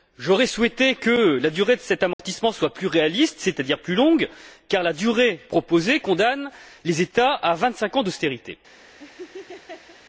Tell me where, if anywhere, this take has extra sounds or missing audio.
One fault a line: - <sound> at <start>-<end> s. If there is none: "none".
- dropout at 2.1-2.2 s
- laugh at 9.0-10.0 s